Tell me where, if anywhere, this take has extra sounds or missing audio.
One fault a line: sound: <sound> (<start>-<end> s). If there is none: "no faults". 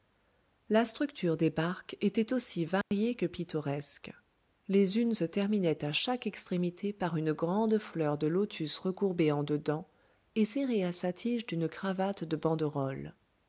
sound: dropout (2.8-2.9 s)